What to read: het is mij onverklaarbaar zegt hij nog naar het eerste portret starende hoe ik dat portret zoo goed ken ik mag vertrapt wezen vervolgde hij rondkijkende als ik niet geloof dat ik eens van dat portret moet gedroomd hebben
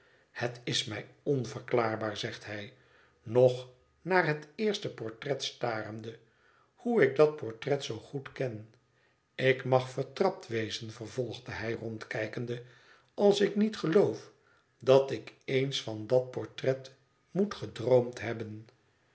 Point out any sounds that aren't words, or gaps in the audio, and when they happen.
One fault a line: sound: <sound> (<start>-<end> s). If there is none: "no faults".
no faults